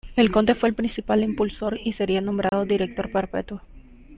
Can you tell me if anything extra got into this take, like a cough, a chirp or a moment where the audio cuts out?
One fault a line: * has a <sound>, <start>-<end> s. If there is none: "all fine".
* has a dropout, 2.5-2.5 s